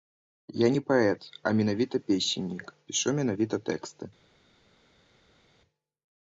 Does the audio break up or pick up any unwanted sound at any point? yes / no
no